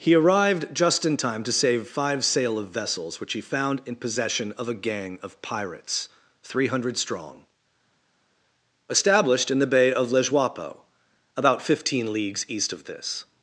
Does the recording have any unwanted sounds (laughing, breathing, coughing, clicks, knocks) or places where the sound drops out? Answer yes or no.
no